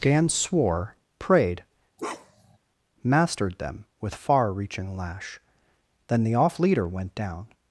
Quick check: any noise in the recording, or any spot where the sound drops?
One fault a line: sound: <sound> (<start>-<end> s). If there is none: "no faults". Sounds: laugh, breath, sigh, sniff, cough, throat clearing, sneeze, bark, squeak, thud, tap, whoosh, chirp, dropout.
sound: bark (2.0-2.6 s)